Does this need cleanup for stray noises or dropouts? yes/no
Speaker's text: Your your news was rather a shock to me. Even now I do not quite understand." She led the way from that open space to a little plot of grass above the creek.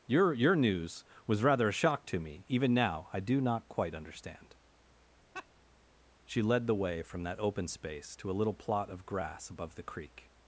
yes